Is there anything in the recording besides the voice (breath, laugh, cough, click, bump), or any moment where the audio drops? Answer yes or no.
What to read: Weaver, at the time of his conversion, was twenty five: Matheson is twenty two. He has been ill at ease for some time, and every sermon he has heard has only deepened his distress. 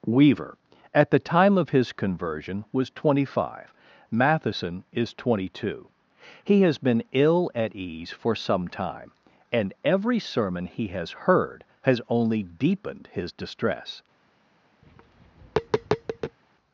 yes